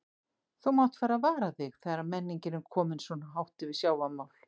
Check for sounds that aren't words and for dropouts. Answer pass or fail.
pass